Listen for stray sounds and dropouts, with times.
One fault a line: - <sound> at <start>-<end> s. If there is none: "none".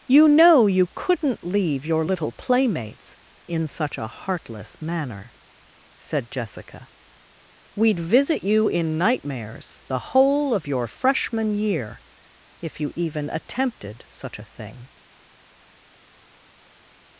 none